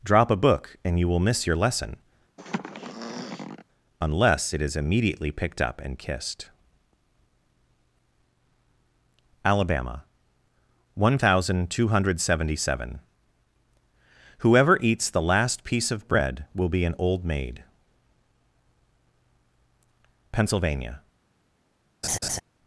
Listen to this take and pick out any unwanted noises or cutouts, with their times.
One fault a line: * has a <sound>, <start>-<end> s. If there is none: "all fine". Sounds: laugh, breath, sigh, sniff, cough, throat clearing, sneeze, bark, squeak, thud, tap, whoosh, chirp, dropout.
* has a throat clearing, 2.4-3.6 s
* has a laugh, 22.0-22.4 s